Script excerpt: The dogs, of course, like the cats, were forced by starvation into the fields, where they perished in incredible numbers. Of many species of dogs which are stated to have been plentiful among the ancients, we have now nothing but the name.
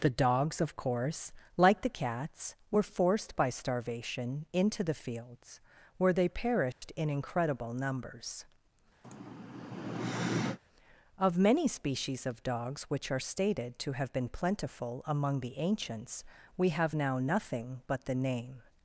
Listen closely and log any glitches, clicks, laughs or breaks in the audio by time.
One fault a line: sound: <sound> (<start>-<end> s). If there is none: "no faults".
sound: dropout (6.7-6.8 s)
sound: sigh (9.0-10.6 s)